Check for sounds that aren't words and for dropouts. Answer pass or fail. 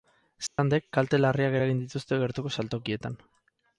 fail